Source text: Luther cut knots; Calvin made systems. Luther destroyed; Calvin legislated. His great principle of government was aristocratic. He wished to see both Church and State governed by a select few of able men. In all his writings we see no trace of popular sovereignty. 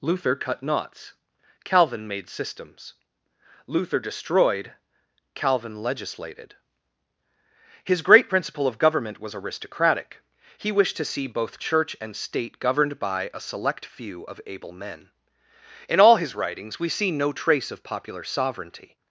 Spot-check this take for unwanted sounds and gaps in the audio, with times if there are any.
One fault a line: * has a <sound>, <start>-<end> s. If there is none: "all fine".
all fine